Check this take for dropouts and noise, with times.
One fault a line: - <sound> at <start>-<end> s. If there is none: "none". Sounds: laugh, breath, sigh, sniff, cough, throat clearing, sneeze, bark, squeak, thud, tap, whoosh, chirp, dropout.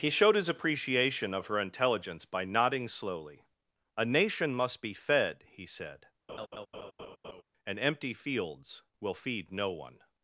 - laugh at 6.3-7.4 s